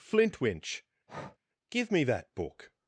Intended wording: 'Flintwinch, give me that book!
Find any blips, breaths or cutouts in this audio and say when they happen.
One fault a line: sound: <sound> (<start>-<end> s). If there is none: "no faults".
sound: breath (1.1-1.4 s)